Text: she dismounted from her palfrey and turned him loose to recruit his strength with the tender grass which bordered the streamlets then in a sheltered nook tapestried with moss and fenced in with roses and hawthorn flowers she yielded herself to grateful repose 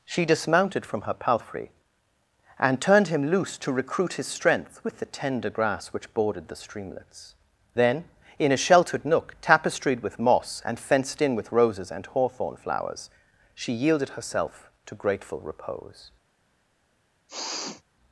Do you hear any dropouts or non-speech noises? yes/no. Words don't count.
yes